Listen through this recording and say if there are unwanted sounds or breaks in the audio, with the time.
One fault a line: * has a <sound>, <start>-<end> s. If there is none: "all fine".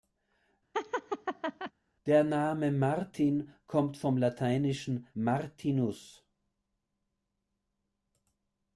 * has a laugh, 0.7-1.7 s